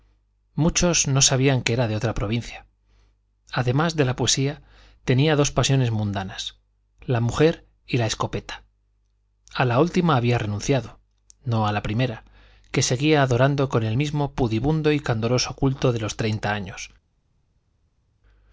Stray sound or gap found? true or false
false